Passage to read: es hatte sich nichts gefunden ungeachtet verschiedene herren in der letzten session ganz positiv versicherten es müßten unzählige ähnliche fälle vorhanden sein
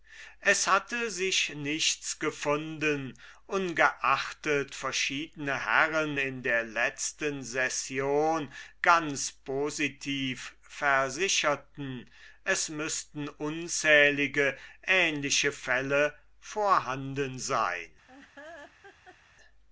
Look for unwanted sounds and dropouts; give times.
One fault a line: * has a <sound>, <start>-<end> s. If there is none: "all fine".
* has a laugh, 18.1-19.2 s